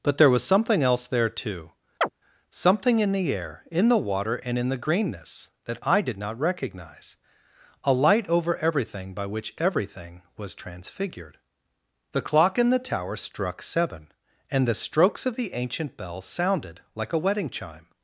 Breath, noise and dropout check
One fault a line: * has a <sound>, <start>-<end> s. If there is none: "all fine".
* has a chirp, 2.0-2.1 s